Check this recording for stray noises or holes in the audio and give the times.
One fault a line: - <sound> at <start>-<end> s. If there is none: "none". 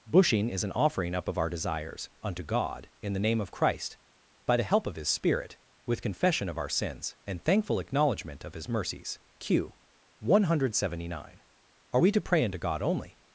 none